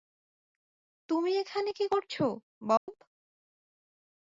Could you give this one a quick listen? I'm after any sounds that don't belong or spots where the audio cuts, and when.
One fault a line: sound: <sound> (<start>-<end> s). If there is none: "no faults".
sound: dropout (2.8-2.9 s)